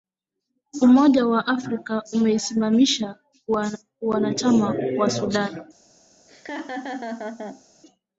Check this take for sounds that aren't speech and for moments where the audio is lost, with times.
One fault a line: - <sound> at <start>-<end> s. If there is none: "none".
- laugh at 6.3-7.6 s